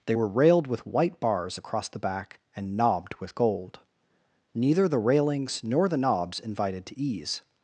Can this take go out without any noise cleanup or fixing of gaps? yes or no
yes